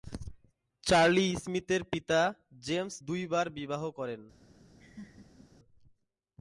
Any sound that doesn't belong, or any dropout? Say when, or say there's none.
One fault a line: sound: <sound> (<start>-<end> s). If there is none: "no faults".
sound: laugh (4.8-5.5 s)